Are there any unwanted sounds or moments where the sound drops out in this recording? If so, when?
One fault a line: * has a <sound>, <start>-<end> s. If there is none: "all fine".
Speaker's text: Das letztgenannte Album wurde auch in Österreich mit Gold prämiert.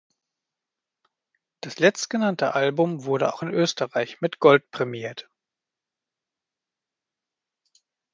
all fine